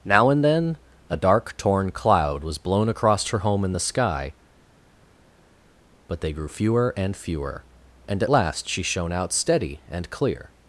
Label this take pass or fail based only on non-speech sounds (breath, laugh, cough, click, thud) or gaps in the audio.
pass